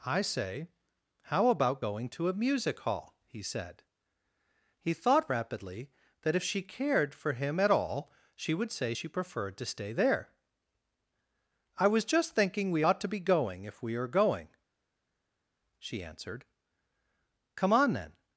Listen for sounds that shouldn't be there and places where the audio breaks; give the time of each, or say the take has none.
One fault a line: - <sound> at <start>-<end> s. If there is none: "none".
none